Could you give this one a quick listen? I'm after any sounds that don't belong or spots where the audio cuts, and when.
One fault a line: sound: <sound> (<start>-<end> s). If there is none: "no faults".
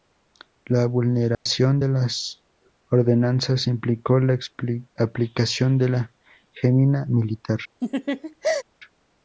sound: dropout (1.3-1.5 s)
sound: laugh (7.8-8.6 s)